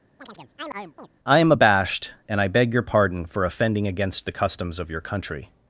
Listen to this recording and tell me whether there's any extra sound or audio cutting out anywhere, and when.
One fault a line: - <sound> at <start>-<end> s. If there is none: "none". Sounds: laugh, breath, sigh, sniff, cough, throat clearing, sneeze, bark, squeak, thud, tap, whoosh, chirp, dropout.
- chirp at 0.2-1.1 s